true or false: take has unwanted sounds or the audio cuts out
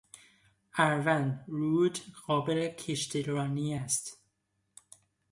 false